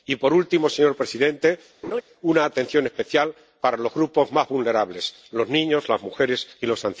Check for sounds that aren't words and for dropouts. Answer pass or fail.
fail